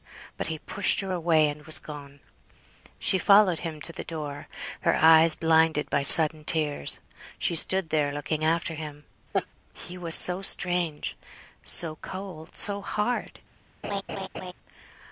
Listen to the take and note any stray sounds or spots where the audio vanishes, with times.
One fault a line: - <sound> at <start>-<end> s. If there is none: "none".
- laugh at 9.3-9.5 s
- laugh at 13.8-14.5 s